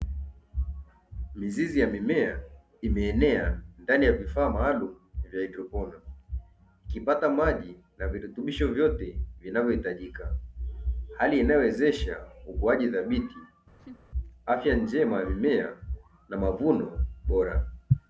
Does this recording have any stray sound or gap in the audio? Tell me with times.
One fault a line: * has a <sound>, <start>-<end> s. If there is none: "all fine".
* has a laugh, 13.8-14.0 s